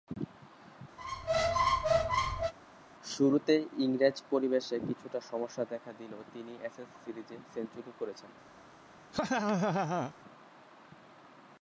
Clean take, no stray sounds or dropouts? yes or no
no